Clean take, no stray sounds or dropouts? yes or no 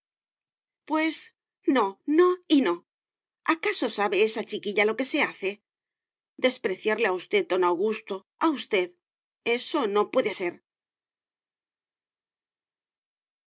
yes